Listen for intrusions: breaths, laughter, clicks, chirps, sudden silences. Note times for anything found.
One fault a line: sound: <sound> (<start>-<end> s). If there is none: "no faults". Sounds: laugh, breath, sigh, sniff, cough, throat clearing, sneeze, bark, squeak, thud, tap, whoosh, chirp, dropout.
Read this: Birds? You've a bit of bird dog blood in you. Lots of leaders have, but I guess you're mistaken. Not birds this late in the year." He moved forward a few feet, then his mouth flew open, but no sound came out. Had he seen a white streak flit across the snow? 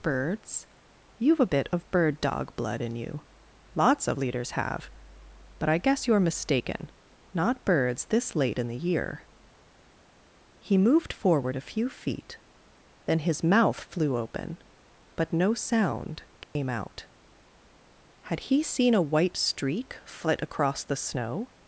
sound: dropout (16.4-16.6 s)